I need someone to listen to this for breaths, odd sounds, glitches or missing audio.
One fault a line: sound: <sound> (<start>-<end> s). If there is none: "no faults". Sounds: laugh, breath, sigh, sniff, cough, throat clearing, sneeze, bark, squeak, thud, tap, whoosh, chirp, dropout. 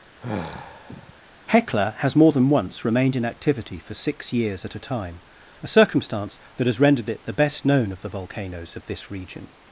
sound: sigh (0.2-1.2 s)